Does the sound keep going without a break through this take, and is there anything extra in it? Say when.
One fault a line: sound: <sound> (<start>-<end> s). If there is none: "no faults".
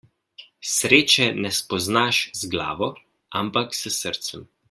no faults